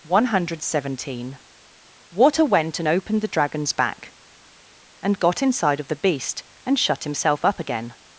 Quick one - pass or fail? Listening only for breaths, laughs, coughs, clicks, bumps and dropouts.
pass